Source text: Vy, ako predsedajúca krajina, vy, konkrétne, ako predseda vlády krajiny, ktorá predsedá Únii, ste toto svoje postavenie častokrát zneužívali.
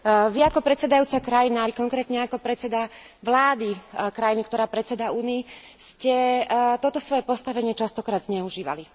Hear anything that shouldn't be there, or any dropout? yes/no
no